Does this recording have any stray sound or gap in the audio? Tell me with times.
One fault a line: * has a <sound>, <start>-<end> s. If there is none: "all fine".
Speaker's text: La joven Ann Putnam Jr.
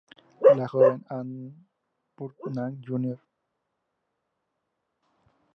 all fine